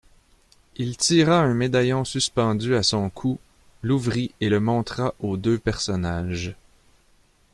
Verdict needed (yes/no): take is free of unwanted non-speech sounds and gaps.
yes